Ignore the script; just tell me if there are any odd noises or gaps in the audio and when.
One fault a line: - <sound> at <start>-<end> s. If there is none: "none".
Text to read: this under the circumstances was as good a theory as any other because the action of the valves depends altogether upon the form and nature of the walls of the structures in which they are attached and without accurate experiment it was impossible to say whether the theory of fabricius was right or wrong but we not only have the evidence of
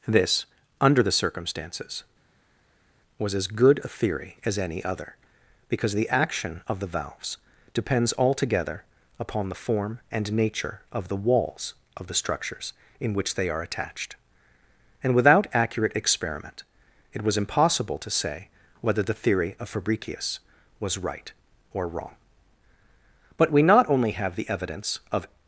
none